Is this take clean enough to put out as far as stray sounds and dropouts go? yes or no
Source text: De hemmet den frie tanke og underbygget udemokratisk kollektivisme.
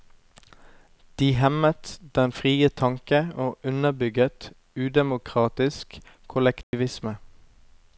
no